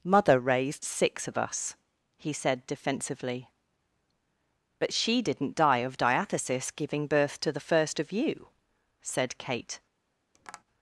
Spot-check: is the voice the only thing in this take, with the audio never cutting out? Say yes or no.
no